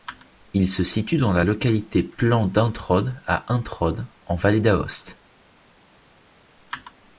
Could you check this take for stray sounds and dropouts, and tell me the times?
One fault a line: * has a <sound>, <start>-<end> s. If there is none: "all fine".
all fine